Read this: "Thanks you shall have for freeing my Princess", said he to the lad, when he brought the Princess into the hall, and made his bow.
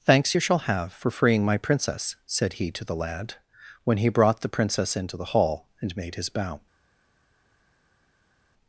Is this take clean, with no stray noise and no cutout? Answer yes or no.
yes